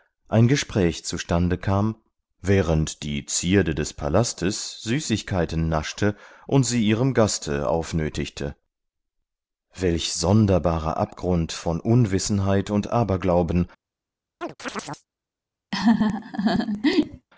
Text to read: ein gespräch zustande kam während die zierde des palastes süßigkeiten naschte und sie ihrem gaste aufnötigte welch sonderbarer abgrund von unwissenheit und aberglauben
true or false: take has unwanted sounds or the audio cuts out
true